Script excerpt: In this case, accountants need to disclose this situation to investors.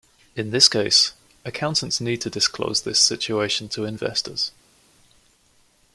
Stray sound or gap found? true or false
false